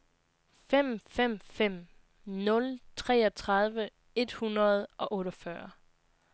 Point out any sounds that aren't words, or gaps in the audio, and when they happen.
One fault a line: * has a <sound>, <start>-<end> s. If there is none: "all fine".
all fine